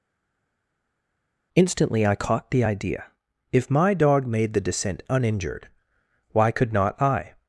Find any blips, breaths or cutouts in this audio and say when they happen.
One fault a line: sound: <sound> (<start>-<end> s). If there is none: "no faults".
no faults